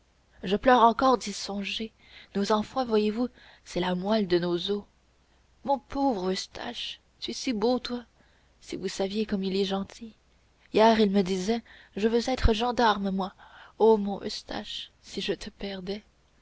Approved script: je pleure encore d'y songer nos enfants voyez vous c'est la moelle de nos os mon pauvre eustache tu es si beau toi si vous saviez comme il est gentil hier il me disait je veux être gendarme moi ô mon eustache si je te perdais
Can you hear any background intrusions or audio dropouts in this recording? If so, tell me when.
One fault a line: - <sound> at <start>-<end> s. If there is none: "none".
none